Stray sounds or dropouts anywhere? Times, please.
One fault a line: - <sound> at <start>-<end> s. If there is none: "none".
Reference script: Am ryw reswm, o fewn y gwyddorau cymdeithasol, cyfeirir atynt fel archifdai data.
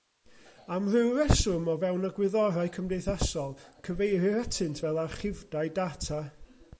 none